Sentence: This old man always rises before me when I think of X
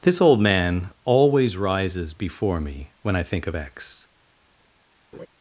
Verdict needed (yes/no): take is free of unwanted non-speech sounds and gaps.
no